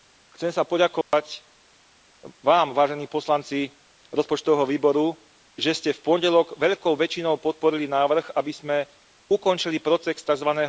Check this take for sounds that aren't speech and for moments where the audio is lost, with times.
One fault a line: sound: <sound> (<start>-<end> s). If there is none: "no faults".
sound: dropout (1.0-1.1 s)